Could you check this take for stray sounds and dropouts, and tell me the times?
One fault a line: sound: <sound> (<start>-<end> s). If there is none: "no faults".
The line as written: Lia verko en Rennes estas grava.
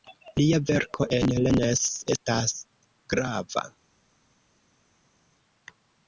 no faults